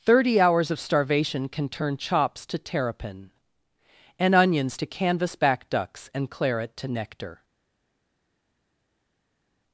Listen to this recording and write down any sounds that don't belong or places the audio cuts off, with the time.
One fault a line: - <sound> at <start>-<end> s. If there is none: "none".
none